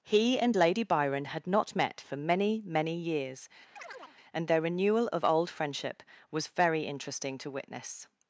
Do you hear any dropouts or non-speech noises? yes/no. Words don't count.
yes